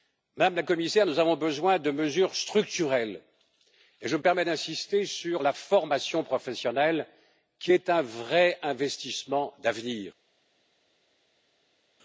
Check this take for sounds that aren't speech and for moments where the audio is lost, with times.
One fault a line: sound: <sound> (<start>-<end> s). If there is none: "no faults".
no faults